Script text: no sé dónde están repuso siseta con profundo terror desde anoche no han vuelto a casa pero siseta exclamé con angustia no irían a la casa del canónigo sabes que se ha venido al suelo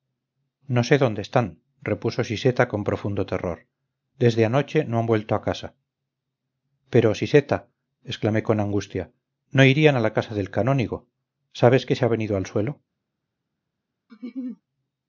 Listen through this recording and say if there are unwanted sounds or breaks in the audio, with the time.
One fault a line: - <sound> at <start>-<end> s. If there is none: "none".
- laugh at 14.1-14.6 s